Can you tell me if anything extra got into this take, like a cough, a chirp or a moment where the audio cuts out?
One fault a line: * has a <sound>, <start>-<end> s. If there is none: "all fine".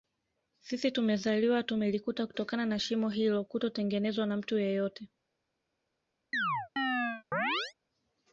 * has a chirp, 6.3-7.7 s